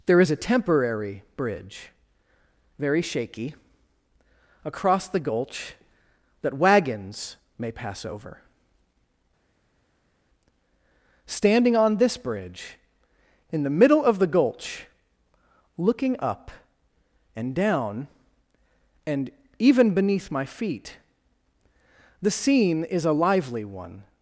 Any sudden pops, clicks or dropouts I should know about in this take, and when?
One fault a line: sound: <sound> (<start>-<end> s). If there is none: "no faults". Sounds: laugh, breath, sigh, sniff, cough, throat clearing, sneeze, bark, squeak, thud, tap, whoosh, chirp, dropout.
no faults